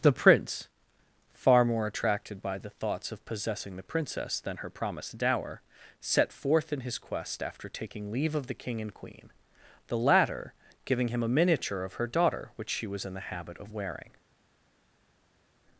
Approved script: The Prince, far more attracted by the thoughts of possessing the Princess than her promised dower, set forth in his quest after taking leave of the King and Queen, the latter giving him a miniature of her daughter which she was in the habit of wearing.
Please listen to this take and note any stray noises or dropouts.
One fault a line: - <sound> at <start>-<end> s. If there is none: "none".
none